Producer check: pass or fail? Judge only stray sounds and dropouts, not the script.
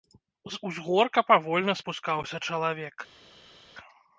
pass